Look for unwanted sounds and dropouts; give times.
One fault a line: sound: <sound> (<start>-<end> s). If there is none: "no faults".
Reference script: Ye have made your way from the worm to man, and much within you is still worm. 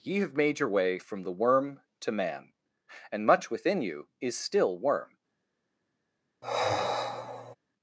sound: sigh (6.4-7.6 s)